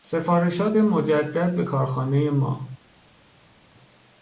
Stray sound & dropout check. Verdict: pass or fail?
pass